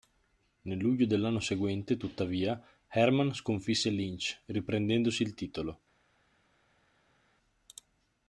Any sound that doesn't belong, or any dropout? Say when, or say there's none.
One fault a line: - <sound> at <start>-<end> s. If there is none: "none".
none